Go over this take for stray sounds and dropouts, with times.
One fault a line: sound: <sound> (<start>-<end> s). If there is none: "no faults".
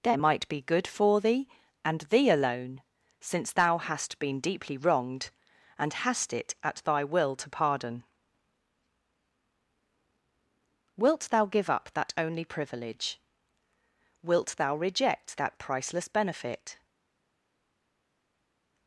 no faults